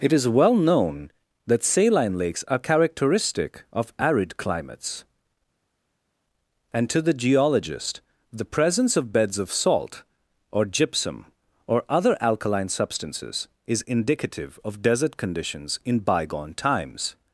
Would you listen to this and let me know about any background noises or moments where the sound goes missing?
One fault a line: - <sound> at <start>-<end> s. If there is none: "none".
none